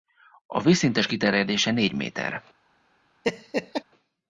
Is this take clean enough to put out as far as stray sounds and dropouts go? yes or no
no